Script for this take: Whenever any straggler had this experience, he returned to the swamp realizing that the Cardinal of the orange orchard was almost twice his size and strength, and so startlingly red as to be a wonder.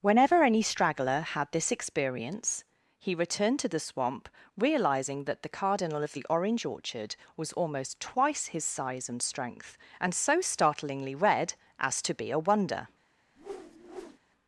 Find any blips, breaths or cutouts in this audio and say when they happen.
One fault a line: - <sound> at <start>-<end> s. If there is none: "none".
- whoosh at 13.4-14.2 s